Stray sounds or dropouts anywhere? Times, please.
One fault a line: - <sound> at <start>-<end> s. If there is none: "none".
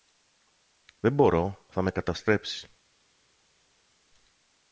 none